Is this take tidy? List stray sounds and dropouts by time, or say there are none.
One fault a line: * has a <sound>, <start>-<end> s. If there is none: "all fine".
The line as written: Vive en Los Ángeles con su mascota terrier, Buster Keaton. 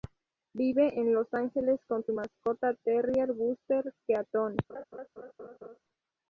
* has a laugh, 4.7-5.8 s